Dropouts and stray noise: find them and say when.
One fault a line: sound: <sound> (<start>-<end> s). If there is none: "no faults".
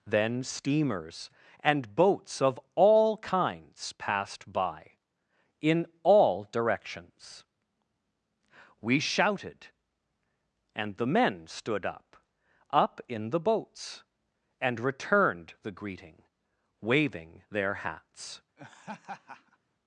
sound: laugh (18.6-19.6 s)